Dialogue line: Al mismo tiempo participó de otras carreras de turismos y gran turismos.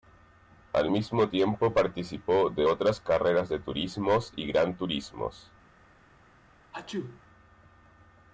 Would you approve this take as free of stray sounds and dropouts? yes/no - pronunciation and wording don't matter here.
no